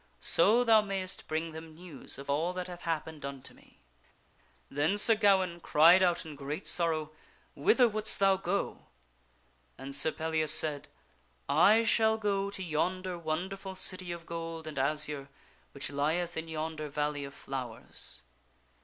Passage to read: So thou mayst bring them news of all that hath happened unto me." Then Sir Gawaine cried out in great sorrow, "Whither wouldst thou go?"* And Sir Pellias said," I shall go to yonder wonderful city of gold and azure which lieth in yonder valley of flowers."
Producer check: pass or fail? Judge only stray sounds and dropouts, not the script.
pass